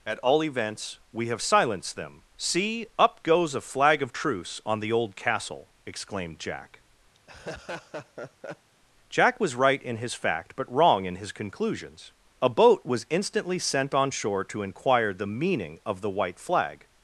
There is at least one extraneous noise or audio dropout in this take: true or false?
true